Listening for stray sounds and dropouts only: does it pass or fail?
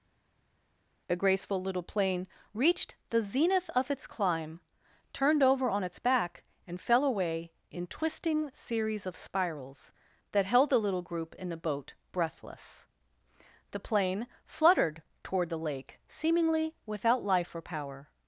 pass